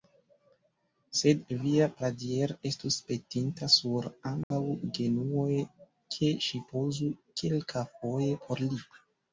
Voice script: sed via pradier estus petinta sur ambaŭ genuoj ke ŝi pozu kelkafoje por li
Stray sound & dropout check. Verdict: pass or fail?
fail